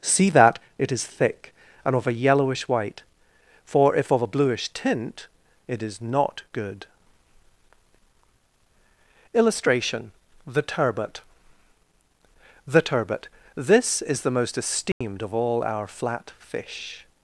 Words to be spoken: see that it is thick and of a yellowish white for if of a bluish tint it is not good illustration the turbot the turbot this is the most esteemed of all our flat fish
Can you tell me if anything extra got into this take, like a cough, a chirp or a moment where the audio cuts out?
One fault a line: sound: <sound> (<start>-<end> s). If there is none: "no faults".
sound: dropout (14.9-15.0 s)